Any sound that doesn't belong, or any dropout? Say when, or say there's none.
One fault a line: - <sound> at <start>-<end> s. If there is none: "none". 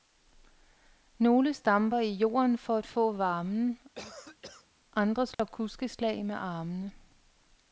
- cough at 4.0-4.7 s
- dropout at 5.3-5.4 s